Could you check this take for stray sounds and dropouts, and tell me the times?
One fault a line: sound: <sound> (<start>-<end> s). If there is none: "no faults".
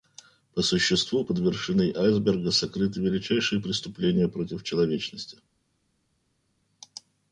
no faults